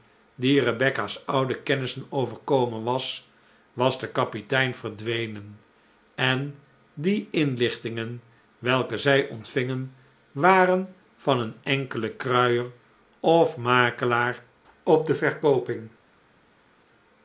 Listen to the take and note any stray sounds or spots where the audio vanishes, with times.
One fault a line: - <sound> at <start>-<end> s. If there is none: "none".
none